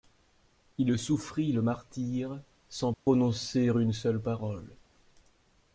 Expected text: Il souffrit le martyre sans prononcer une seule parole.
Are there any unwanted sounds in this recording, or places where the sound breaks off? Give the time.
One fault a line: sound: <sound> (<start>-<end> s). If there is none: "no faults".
sound: dropout (2.9-3.1 s)